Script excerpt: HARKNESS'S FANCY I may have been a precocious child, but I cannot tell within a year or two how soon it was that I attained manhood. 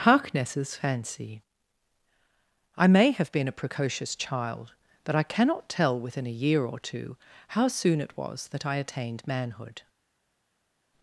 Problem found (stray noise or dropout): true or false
false